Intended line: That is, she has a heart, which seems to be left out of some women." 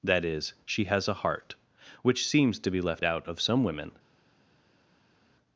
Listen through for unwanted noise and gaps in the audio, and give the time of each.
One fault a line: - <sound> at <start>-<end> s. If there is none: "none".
none